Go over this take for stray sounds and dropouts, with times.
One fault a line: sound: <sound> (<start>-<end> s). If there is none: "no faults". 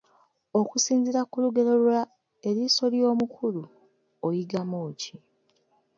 no faults